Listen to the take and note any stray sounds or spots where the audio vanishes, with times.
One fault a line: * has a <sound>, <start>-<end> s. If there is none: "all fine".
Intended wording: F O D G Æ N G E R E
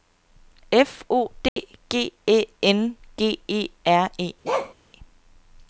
* has a dropout, 1.5-1.6 s
* has a bark, 4.4-4.7 s